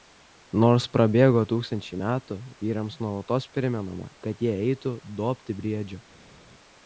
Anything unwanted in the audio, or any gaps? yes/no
no